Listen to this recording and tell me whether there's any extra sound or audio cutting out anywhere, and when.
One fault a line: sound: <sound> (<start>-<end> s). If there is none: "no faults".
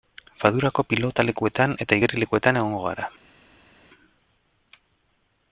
no faults